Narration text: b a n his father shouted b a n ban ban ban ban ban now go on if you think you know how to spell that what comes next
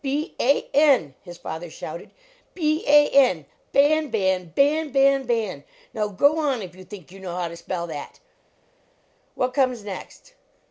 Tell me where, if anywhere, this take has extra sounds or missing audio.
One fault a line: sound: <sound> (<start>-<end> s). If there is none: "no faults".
no faults